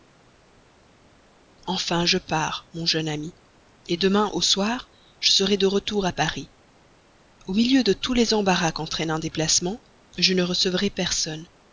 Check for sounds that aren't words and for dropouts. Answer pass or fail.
pass